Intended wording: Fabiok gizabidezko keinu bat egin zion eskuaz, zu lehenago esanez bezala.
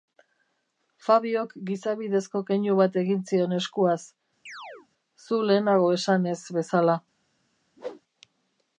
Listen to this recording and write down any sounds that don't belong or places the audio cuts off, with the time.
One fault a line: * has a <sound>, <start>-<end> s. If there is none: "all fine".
* has a chirp, 4.5-4.9 s
* has a whoosh, 7.8-8.0 s